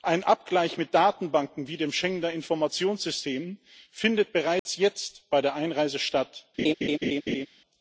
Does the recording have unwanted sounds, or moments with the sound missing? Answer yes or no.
yes